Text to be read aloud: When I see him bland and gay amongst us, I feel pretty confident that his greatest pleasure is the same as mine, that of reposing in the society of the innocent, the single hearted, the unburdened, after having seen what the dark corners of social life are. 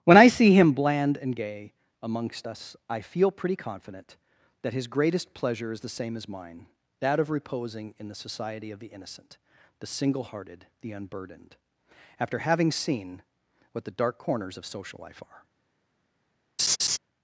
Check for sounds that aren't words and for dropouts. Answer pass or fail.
fail